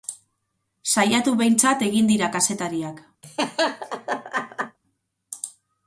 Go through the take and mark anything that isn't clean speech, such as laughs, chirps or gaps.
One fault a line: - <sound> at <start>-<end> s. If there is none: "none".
- laugh at 3.2-4.8 s